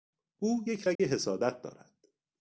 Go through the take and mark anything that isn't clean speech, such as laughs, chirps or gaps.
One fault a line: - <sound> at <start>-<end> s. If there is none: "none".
- dropout at 1.0-1.0 s